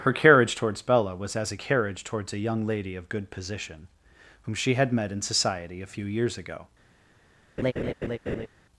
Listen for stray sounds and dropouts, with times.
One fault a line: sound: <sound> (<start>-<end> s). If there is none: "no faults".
sound: laugh (7.6-8.5 s)